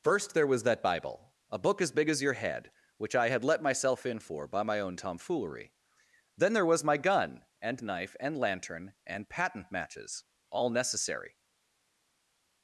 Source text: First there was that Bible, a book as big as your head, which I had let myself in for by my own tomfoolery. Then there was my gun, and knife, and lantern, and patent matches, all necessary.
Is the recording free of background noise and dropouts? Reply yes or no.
yes